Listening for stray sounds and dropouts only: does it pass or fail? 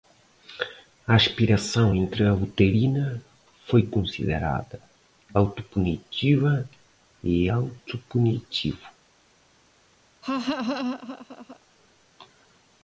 fail